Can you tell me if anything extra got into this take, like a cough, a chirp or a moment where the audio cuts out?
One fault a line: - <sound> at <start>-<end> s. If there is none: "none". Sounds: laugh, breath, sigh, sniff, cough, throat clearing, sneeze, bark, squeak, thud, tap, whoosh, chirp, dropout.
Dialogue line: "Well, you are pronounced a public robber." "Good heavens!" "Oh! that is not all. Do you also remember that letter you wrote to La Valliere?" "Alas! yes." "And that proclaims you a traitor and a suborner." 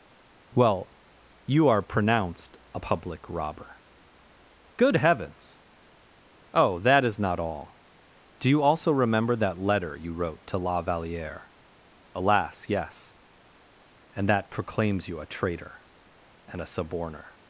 none